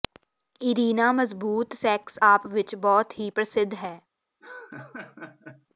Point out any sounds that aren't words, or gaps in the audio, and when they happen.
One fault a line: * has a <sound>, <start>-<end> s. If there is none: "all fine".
* has a laugh, 4.4-5.7 s